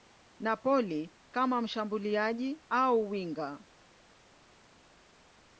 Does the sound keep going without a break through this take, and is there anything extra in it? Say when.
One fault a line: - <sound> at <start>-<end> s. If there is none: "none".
none